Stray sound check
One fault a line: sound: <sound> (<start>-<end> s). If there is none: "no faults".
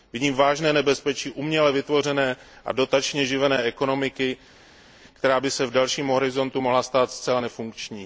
no faults